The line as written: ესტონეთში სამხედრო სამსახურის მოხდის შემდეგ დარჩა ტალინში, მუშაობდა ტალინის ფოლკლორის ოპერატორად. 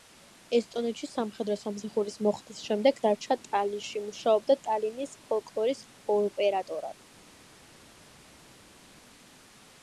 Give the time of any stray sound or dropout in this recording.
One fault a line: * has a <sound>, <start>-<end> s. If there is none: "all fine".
all fine